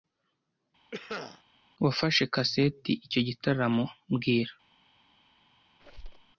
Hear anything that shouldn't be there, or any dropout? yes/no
yes